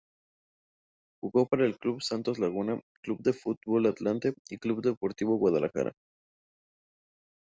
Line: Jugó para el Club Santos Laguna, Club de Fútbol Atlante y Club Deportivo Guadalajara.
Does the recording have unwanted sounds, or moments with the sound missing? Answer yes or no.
no